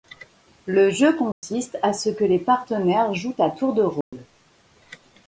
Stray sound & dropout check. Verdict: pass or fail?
fail